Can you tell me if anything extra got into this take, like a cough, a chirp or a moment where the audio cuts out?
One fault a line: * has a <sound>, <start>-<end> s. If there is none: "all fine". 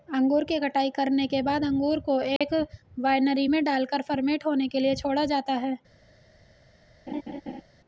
* has a dropout, 2.4-2.4 s
* has a laugh, 7.1-7.6 s